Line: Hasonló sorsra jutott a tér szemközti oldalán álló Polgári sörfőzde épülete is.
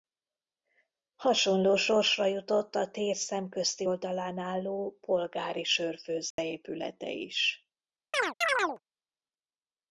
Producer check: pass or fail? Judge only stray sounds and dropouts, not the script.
fail